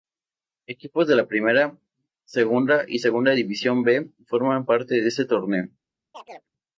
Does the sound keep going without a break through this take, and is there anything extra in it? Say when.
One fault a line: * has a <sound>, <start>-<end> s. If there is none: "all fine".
* has a chirp, 6.1-6.5 s